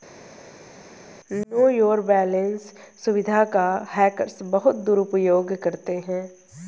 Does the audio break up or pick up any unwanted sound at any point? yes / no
no